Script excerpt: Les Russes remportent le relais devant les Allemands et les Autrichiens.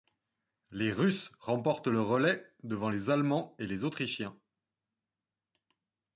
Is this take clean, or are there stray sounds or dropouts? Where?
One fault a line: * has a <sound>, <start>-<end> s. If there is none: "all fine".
all fine